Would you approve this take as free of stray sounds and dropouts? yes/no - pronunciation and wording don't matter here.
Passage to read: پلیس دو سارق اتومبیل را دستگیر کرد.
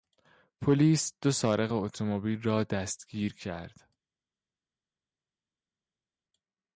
yes